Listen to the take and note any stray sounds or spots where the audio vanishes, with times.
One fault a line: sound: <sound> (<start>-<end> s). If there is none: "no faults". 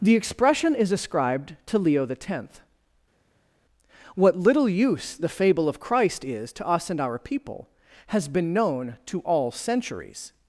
no faults